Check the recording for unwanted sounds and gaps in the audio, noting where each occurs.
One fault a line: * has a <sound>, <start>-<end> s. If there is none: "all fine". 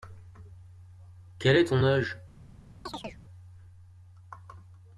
* has a chirp, 2.9-3.2 s